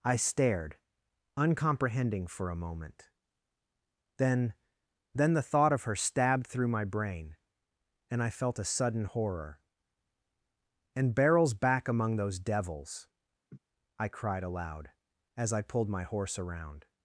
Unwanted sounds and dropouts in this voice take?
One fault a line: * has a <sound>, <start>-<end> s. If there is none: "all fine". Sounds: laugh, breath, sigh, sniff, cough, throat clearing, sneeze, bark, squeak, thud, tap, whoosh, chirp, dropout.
* has a laugh, 13.5-13.6 s